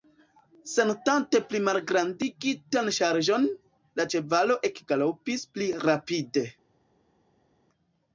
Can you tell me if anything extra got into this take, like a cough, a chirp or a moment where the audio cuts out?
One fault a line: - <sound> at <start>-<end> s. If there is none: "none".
none